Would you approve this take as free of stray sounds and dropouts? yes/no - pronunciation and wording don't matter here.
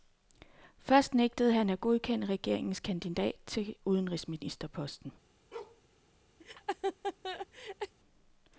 no